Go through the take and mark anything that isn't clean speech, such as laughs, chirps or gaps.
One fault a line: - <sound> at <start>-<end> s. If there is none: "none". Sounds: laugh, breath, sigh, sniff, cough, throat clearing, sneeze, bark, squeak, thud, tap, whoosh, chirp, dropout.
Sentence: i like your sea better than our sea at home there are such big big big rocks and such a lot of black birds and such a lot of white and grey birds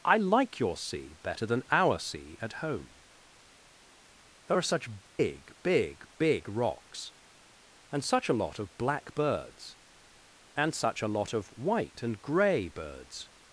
- dropout at 5.1-5.2 s